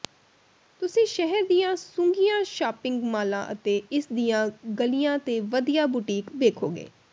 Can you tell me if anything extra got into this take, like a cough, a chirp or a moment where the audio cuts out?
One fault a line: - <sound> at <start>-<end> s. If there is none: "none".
none